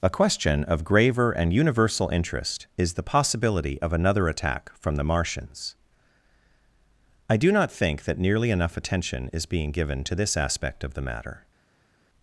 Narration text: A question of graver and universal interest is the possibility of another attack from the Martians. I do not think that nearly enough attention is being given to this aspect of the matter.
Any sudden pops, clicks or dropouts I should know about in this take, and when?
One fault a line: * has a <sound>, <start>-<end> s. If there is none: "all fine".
all fine